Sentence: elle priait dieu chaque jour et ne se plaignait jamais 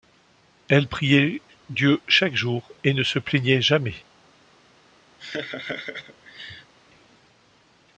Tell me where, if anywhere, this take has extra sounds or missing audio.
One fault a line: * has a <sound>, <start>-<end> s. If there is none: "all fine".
* has a laugh, 5.2-6.7 s